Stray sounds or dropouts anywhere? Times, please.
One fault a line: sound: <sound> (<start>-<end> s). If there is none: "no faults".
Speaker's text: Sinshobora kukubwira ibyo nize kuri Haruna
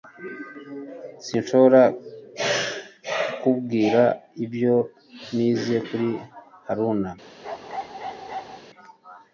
sound: bark (7.4-8.6 s)